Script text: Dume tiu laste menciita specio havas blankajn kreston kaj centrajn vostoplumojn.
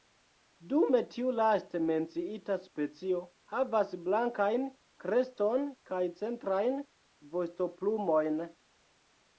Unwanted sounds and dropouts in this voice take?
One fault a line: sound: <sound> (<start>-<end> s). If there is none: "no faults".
no faults